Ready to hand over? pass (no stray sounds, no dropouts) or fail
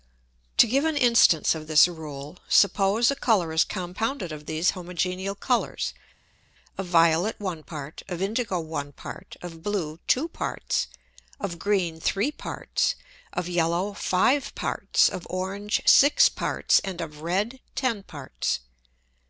pass